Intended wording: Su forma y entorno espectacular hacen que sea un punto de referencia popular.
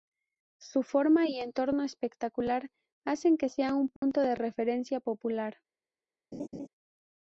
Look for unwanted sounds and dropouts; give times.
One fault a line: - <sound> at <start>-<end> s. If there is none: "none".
- dropout at 4.0-4.0 s
- laugh at 6.3-6.7 s